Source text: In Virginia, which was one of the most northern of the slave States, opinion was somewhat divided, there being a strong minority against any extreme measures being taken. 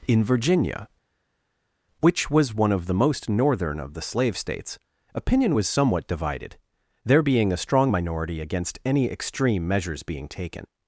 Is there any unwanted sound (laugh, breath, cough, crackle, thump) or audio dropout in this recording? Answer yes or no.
no